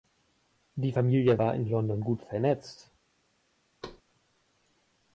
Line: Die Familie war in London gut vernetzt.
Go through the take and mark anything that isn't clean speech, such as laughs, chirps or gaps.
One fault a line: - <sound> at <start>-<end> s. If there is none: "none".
- thud at 3.8-4.0 s